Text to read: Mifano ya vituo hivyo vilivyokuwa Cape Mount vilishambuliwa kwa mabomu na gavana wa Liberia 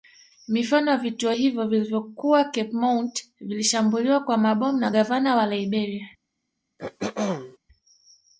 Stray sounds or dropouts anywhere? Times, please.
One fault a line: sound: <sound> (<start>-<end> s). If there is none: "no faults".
sound: throat clearing (6.8-7.6 s)